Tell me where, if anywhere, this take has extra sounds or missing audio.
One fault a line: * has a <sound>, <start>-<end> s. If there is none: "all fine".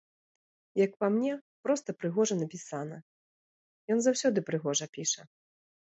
all fine